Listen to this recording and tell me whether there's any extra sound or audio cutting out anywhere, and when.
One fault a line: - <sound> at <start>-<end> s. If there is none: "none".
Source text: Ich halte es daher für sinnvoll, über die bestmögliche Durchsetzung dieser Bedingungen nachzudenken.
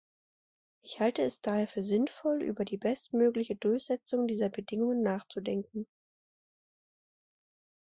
none